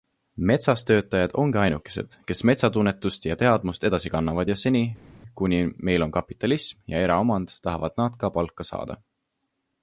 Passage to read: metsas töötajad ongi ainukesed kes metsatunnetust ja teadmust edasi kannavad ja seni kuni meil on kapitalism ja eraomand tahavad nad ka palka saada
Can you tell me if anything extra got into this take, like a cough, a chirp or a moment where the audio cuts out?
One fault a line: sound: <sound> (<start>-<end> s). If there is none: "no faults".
no faults